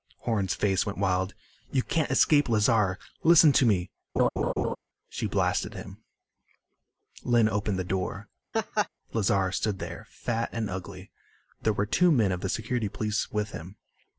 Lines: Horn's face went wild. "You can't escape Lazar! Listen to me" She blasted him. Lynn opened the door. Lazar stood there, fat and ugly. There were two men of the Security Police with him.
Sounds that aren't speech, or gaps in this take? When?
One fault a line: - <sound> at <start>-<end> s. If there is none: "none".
- laugh at 4.2-4.8 s
- laugh at 8.5-8.9 s